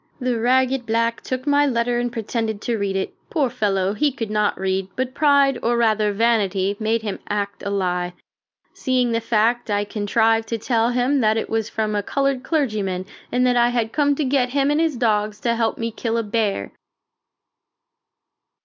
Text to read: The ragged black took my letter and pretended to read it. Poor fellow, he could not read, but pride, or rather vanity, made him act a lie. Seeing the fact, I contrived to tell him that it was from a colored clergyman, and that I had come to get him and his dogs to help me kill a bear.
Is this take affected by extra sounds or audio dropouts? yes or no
no